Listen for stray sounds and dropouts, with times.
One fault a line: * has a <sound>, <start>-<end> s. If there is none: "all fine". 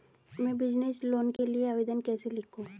* has a dropout, 1.4-1.4 s